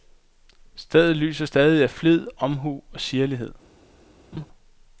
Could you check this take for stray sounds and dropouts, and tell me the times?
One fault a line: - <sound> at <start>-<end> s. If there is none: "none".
- laugh at 4.3-4.5 s